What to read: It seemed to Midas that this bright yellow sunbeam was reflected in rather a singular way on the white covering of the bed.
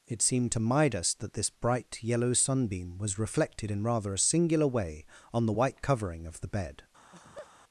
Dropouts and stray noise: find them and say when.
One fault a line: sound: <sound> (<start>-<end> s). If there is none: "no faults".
sound: laugh (7.0-7.5 s)